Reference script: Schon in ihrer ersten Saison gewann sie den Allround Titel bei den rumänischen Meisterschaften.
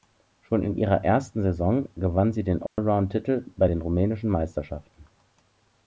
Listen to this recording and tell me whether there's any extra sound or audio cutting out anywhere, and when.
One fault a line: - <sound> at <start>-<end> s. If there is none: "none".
- dropout at 2.7-2.8 s